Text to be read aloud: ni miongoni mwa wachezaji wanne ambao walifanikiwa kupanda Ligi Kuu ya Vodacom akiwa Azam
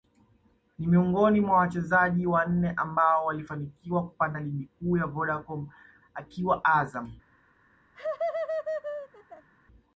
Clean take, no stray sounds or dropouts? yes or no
no